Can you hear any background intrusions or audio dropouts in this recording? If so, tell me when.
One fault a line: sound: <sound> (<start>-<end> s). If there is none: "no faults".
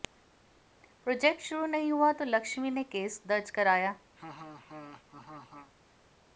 sound: laugh (4.2-5.7 s)